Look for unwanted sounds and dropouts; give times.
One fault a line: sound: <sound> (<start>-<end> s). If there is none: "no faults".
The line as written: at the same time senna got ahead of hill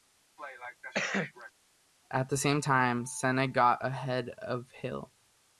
sound: cough (0.4-1.5 s)